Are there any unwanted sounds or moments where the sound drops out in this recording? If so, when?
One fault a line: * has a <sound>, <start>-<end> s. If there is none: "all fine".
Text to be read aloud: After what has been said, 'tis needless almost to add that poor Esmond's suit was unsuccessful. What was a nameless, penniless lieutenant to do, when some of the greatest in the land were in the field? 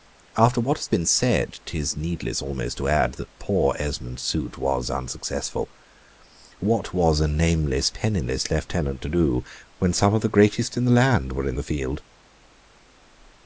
all fine